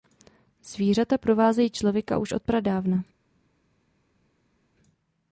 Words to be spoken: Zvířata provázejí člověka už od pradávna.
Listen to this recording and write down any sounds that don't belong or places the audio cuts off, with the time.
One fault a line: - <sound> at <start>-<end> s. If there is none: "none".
none